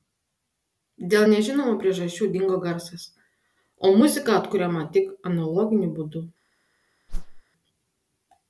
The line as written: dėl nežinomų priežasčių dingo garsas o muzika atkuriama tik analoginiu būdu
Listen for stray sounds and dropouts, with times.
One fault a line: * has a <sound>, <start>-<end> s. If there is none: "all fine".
* has a whoosh, 7.1-7.4 s